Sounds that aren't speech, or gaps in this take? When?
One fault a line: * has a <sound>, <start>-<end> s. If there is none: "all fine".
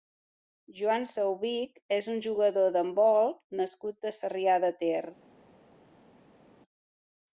all fine